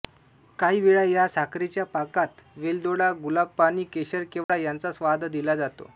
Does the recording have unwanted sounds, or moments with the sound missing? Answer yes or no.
yes